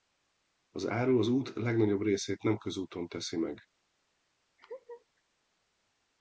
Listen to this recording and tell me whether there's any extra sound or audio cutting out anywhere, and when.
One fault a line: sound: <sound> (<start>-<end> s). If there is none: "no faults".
sound: laugh (4.6-5.1 s)